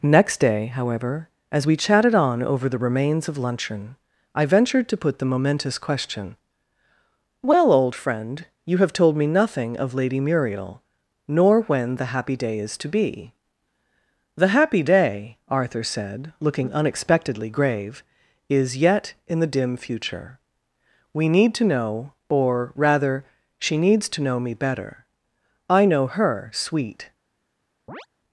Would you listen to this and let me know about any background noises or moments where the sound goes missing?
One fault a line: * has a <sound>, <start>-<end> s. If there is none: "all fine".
* has a chirp, 27.9-28.1 s